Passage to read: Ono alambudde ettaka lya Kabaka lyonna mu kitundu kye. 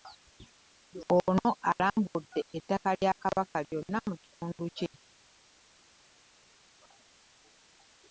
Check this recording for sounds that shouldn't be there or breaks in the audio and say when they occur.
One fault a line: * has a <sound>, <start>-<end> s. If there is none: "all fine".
all fine